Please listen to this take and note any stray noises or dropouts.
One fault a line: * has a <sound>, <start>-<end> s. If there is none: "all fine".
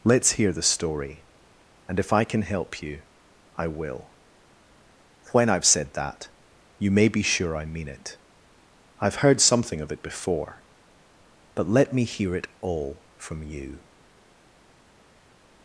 all fine